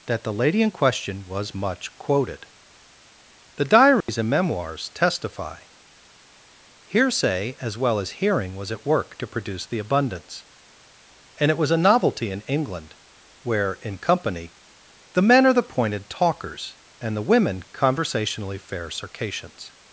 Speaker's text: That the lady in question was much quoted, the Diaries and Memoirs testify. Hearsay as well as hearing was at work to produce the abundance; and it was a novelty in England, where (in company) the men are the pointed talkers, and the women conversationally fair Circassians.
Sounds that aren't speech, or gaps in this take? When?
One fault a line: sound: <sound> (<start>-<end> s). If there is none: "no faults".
sound: dropout (4.0-4.1 s)